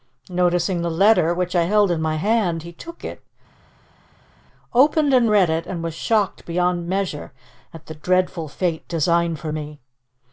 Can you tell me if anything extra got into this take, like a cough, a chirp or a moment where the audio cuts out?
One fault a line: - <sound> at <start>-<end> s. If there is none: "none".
none